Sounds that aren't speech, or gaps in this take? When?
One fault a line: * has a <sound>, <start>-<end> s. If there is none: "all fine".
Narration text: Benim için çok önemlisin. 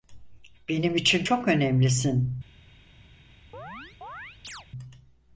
* has a chirp, 3.5-4.7 s